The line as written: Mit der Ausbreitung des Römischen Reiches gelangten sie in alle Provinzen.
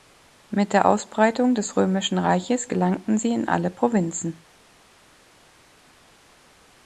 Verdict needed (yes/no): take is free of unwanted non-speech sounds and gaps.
yes